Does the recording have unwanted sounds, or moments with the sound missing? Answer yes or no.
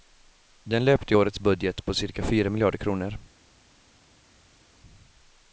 no